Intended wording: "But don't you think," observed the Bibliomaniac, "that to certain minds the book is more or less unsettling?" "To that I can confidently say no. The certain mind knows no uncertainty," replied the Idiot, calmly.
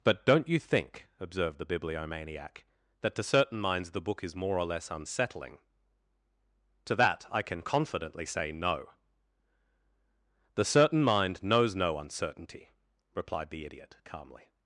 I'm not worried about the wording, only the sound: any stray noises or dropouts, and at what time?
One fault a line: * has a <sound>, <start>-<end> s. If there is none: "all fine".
all fine